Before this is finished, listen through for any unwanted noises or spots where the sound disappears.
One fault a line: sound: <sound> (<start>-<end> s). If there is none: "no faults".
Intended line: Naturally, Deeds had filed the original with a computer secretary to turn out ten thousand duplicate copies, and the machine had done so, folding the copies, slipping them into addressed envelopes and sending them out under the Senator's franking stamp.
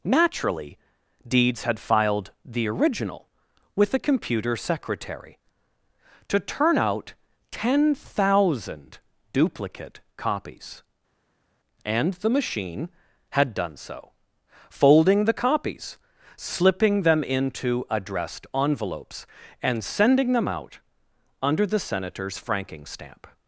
no faults